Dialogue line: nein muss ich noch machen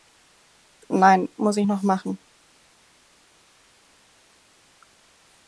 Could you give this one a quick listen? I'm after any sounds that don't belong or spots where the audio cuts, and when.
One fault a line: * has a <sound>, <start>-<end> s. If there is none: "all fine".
all fine